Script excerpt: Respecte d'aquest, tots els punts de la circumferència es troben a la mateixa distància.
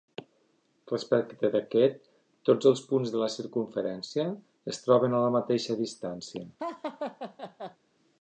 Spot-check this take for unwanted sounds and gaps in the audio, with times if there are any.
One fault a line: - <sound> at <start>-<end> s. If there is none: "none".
- laugh at 6.6-7.8 s